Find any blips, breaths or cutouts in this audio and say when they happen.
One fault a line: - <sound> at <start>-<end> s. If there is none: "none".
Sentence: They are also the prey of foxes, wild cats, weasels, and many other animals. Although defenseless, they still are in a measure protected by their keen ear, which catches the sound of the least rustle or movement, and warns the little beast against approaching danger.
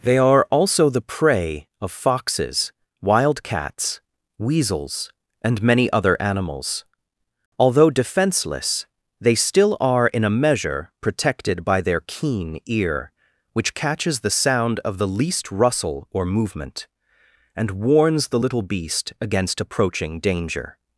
none